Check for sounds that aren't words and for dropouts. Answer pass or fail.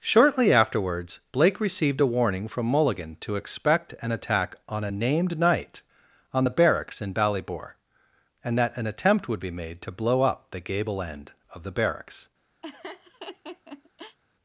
fail